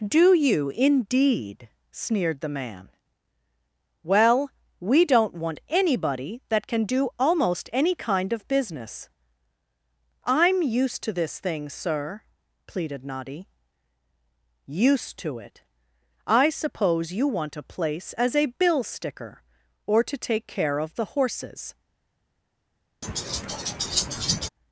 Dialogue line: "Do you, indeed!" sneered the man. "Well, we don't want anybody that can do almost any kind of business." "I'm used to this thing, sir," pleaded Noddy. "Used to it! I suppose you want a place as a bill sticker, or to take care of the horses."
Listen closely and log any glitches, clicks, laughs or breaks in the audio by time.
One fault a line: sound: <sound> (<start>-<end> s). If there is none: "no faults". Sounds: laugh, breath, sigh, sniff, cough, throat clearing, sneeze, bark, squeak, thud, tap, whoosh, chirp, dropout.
sound: laugh (23.0-24.5 s)